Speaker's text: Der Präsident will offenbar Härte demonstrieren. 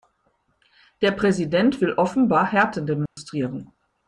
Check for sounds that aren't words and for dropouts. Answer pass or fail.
fail